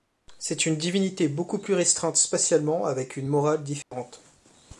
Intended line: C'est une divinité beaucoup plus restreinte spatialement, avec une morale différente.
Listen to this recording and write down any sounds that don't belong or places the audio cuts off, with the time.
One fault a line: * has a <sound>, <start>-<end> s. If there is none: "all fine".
* has a dropout, 3.8-3.9 s